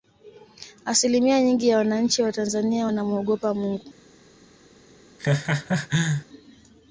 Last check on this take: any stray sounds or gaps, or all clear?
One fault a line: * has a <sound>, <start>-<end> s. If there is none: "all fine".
* has a laugh, 5.2-6.3 s